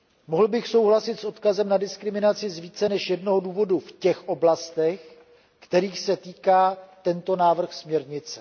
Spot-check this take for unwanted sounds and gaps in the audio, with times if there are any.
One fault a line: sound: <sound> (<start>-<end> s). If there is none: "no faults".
no faults